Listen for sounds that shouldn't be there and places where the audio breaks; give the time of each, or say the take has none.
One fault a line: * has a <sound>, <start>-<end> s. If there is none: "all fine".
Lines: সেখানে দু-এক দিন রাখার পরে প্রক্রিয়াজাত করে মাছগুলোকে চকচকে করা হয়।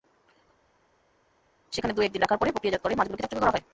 all fine